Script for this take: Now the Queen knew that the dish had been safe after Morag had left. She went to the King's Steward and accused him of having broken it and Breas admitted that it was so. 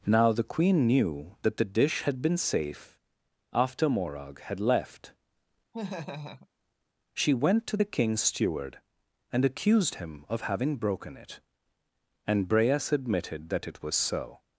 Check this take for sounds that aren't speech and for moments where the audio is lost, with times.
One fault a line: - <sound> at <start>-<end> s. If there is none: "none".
- laugh at 5.7-6.5 s